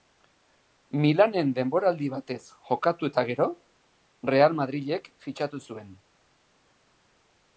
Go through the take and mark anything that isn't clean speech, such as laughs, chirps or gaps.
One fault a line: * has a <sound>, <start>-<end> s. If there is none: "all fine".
all fine